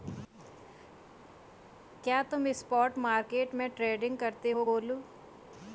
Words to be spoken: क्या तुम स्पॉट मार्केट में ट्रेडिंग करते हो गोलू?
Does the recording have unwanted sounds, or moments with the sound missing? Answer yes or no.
no